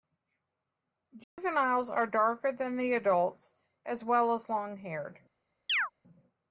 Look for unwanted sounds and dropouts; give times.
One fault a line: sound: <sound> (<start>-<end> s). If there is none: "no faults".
sound: dropout (1.2-1.4 s)
sound: chirp (5.7-5.9 s)